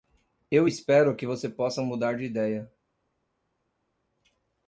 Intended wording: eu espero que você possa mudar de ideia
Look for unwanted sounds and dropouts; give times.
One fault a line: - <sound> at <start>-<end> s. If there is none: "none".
none